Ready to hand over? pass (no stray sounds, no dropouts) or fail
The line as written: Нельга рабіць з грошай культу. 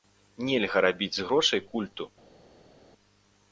pass